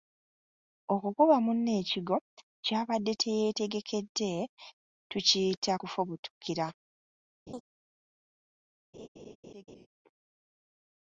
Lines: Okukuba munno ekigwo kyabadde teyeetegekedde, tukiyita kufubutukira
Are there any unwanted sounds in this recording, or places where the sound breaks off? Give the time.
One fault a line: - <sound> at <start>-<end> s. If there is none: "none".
- laugh at 7.5-7.6 s
- laugh at 8.9-9.9 s